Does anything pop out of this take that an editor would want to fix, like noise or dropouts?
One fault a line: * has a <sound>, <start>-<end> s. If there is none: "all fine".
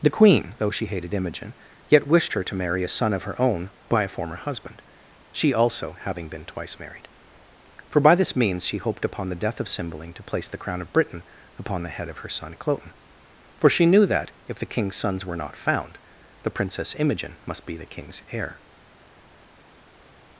all fine